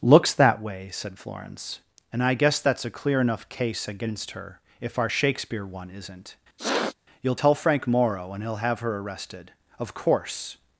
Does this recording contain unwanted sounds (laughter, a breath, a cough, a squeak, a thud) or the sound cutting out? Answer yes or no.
yes